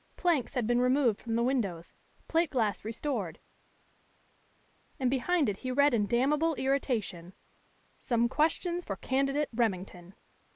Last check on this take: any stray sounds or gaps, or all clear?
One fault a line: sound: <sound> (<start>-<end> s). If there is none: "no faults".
no faults